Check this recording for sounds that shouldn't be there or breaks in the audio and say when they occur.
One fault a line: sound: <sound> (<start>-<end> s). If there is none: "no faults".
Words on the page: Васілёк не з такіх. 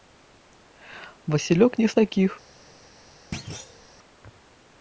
sound: thud (3.3-3.9 s)